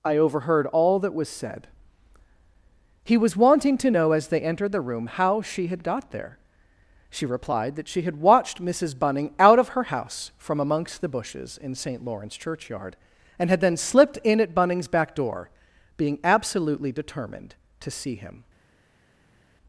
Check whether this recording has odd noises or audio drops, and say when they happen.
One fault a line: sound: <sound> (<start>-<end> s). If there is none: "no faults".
no faults